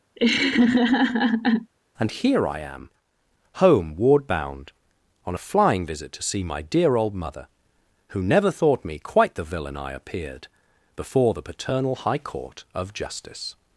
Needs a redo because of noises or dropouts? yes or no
yes